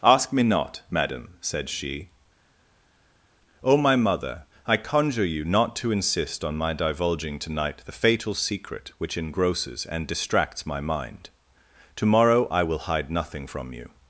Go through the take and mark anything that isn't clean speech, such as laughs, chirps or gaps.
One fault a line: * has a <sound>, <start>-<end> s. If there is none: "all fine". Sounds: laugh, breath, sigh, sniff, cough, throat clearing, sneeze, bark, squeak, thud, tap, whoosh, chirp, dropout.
all fine